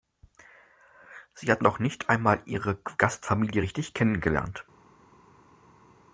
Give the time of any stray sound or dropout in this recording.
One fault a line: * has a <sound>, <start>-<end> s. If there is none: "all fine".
all fine